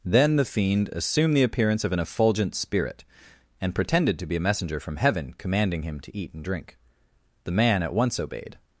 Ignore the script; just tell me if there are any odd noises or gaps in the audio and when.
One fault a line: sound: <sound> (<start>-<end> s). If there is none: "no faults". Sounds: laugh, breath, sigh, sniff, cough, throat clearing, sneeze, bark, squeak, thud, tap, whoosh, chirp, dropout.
no faults